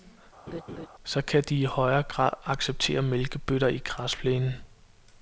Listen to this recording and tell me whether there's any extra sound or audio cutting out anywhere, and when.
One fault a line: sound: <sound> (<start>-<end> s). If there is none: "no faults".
sound: laugh (0.5-0.9 s)